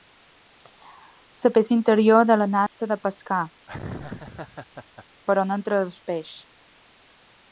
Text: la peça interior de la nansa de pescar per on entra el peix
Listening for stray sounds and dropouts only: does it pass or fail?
fail